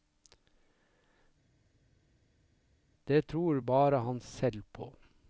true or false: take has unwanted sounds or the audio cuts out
false